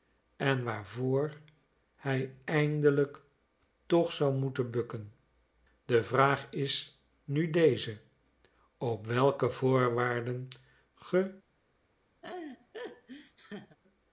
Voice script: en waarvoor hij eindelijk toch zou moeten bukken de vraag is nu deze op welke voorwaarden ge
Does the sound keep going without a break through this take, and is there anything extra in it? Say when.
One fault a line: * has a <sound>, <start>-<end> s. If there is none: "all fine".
* has a laugh, 12.2-13.8 s